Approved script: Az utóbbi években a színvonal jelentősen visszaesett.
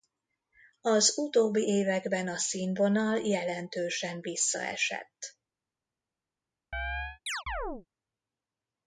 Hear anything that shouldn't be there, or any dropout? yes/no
yes